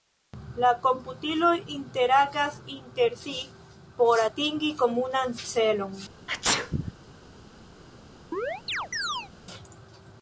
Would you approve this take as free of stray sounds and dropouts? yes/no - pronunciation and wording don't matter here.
no